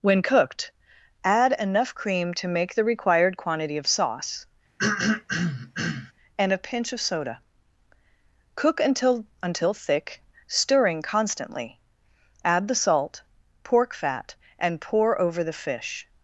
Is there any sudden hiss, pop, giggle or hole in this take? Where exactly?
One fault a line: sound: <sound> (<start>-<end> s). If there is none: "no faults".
sound: throat clearing (4.8-6.1 s)